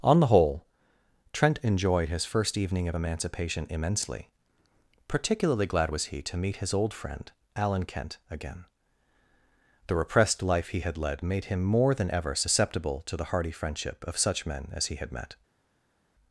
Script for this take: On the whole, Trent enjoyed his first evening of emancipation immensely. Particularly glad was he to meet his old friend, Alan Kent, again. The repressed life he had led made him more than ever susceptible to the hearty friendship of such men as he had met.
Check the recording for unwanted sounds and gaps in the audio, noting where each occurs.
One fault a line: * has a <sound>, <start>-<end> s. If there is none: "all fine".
all fine